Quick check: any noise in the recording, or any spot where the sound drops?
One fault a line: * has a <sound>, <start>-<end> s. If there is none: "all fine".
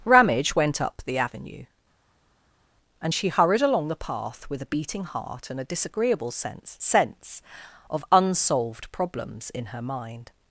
all fine